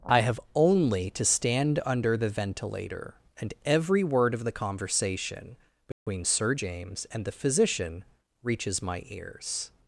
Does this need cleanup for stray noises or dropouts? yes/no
yes